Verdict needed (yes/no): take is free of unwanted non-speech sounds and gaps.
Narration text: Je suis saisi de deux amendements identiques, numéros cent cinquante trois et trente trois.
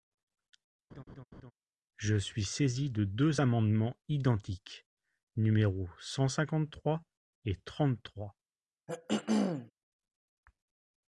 no